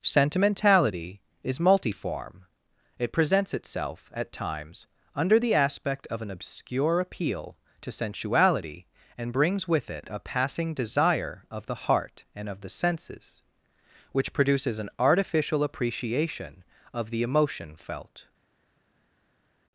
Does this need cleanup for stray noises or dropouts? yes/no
no